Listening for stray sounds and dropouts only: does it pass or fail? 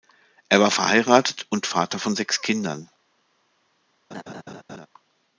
fail